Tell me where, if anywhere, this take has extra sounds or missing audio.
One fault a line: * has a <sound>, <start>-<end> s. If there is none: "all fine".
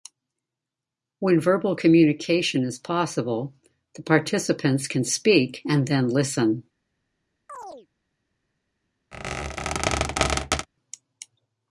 * has a chirp, 7.5-7.9 s
* has a squeak, 9.1-10.7 s